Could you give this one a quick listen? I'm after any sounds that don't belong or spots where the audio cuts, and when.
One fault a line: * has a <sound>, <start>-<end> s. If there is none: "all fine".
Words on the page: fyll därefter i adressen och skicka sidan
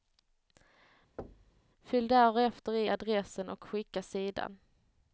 * has a thud, 1.2-1.6 s